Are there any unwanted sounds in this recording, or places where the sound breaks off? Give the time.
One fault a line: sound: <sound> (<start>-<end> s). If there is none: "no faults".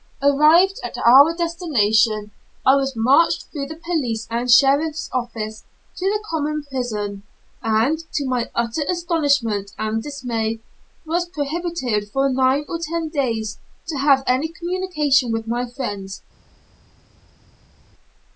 no faults